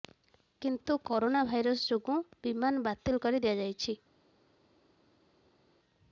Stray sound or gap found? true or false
false